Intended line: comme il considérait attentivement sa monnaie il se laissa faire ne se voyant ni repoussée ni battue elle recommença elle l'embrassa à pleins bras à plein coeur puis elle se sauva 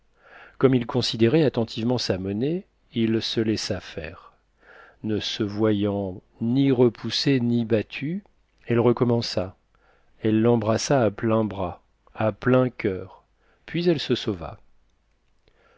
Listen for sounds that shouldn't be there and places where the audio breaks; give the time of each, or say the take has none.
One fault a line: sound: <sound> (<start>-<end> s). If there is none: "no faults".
no faults